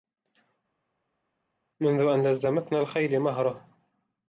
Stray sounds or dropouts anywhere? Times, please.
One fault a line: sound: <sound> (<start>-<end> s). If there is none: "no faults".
no faults